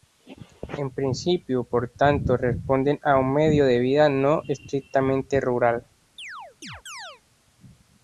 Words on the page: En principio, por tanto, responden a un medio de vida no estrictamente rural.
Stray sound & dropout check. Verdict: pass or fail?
fail